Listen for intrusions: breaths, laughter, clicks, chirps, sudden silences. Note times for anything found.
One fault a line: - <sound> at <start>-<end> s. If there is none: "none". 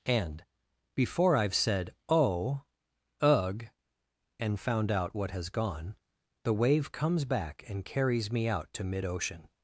none